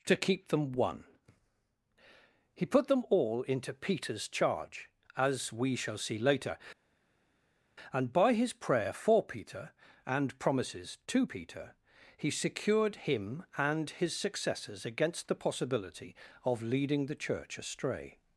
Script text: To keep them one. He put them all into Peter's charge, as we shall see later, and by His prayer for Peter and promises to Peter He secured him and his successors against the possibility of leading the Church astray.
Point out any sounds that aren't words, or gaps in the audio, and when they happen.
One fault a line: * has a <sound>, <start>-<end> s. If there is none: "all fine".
all fine